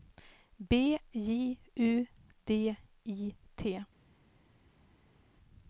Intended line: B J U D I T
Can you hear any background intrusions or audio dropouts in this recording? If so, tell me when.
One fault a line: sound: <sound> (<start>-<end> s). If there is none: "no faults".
no faults